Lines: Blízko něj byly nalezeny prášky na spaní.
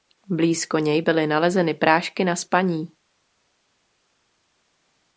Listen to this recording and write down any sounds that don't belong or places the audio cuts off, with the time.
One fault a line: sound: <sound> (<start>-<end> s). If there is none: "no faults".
no faults